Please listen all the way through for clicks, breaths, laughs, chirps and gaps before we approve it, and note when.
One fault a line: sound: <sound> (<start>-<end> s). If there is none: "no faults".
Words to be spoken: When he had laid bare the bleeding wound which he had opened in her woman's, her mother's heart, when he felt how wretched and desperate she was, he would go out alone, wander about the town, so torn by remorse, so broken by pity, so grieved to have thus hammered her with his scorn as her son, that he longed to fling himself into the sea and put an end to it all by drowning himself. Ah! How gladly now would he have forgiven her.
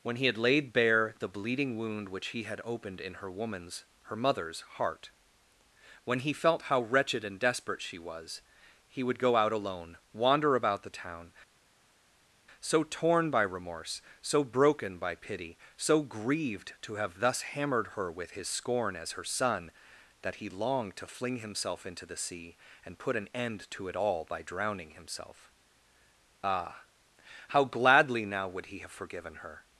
no faults